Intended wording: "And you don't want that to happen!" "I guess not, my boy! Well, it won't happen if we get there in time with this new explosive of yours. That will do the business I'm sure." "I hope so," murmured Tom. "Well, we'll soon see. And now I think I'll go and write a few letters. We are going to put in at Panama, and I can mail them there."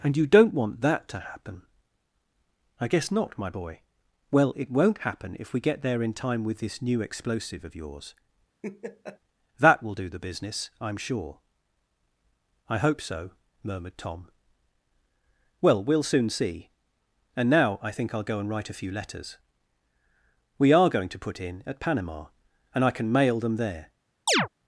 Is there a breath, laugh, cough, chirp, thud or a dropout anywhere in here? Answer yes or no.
yes